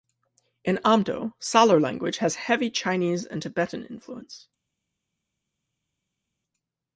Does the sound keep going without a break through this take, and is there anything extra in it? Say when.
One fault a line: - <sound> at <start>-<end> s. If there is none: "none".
none